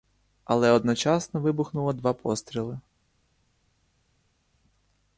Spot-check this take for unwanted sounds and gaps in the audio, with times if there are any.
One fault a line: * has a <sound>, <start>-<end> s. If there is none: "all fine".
all fine